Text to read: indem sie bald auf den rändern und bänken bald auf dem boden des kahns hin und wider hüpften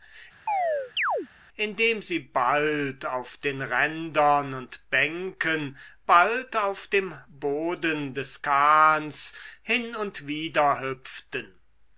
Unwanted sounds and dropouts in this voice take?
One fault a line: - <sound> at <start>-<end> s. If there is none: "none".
- chirp at 0.5-1.3 s